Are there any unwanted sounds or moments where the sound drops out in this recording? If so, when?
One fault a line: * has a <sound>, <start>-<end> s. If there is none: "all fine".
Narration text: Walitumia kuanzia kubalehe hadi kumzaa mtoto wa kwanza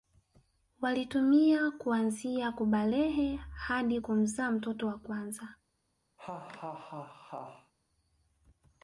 * has a laugh, 6.2-7.7 s